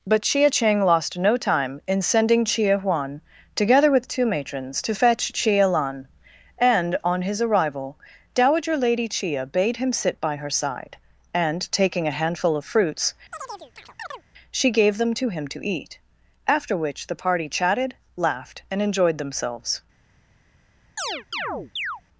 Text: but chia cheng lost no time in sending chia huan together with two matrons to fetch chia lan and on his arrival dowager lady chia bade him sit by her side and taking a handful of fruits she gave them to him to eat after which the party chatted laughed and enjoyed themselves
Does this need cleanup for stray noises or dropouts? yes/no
yes